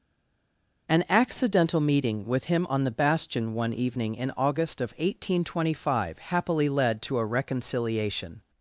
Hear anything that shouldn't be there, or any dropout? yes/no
no